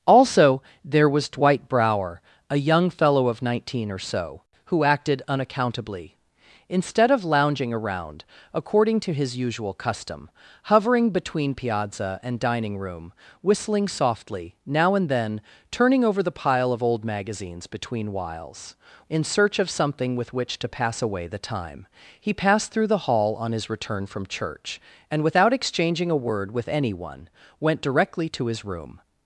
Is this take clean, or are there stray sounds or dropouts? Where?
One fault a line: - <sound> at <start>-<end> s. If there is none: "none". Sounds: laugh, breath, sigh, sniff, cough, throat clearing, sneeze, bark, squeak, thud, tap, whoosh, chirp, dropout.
none